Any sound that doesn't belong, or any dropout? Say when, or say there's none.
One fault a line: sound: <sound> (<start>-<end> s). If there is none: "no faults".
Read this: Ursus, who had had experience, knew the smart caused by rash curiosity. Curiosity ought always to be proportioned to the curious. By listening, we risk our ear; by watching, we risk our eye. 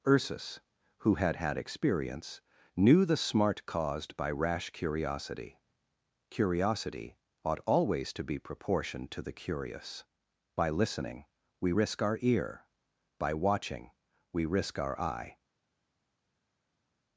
no faults